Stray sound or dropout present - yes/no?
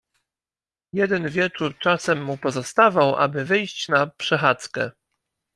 no